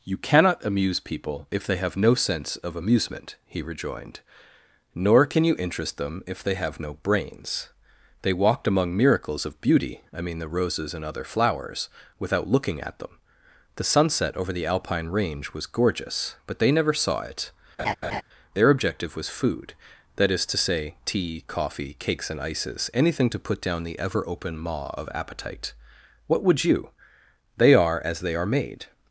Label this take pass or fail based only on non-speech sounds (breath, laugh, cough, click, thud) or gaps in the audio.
fail